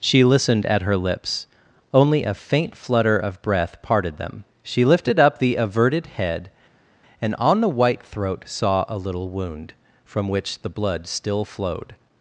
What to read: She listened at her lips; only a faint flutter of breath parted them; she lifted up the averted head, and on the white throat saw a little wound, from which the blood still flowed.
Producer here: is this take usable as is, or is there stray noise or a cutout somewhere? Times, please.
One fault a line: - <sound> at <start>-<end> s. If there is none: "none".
none